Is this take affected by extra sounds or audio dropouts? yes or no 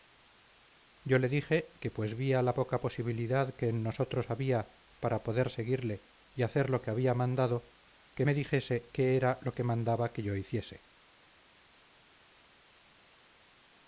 no